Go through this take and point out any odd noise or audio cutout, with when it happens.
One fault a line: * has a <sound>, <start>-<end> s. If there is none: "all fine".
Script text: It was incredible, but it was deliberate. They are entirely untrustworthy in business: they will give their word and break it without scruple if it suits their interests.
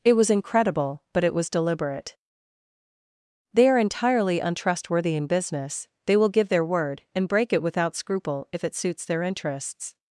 all fine